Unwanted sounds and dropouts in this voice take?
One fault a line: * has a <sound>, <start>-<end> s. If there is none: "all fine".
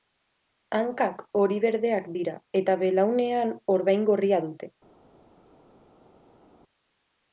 all fine